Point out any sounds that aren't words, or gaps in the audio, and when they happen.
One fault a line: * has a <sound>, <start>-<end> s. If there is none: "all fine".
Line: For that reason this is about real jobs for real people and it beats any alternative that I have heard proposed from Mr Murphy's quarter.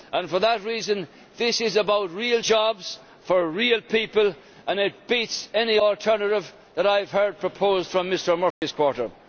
* has a dropout, 8.5-8.6 s